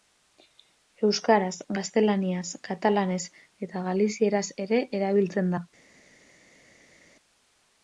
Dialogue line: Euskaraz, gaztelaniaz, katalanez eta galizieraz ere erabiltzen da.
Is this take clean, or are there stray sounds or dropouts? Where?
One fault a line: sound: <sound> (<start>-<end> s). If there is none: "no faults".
no faults